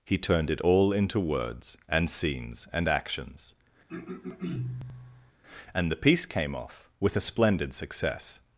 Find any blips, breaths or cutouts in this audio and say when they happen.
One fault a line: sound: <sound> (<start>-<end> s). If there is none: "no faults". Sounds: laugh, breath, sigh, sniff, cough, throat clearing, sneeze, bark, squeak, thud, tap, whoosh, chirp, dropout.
sound: throat clearing (3.9-5.3 s)